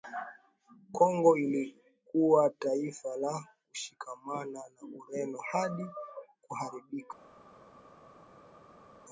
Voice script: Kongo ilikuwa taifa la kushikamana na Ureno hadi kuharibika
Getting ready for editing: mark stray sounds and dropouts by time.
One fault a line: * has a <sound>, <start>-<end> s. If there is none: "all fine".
all fine